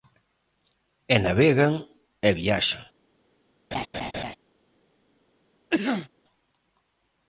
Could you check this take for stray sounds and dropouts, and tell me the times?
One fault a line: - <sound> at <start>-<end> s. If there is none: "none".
- laugh at 3.7-4.3 s
- cough at 5.7-6.1 s